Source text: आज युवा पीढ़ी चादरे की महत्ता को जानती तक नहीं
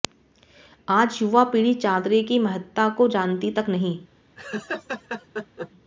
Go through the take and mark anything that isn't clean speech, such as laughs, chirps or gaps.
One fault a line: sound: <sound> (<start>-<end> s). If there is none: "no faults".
sound: laugh (4.4-5.7 s)